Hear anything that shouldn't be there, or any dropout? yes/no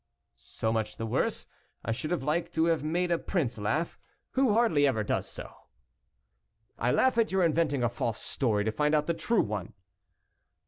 no